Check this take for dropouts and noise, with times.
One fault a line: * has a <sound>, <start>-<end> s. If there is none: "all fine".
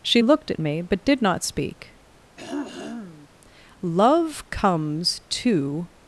* has a throat clearing, 2.4-3.3 s